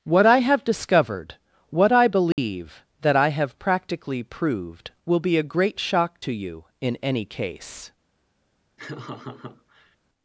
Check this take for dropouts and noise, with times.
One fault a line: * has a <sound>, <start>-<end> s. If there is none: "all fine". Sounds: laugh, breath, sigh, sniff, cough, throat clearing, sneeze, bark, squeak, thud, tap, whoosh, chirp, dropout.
* has a dropout, 2.3-2.4 s
* has a laugh, 8.8-10.0 s